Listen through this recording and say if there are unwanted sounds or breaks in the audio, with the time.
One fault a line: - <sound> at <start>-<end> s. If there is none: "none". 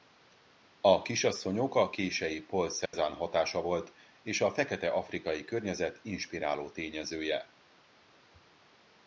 - dropout at 2.9-2.9 s